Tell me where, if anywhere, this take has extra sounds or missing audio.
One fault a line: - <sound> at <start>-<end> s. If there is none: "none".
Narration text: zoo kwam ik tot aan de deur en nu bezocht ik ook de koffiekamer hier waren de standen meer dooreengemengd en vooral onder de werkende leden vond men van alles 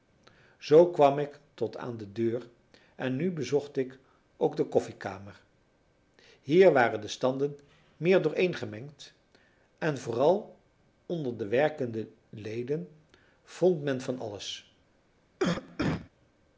- cough at 15.4-16.1 s